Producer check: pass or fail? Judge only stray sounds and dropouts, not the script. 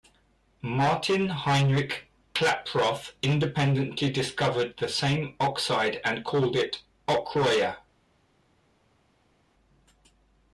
pass